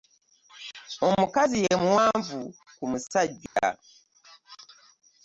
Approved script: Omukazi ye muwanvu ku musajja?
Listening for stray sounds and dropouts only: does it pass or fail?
fail